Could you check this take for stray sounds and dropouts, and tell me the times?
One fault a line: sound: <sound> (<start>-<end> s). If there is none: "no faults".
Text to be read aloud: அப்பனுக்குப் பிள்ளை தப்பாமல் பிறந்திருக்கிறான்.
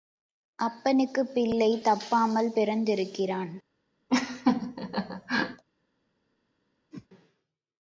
sound: laugh (4.1-5.6 s)
sound: whoosh (6.9-7.1 s)